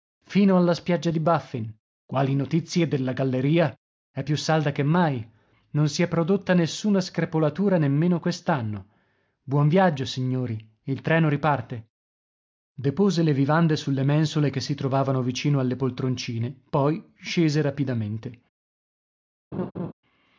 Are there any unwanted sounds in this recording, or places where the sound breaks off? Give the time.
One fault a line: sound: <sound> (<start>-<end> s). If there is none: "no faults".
sound: laugh (19.5-19.9 s)